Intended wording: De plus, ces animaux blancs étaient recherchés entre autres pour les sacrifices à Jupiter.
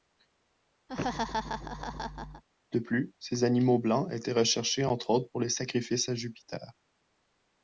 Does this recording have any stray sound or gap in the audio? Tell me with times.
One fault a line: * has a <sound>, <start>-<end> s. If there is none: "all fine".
* has a laugh, 0.9-2.4 s